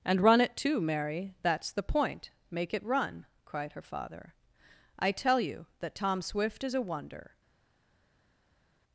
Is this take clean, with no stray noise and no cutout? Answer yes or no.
yes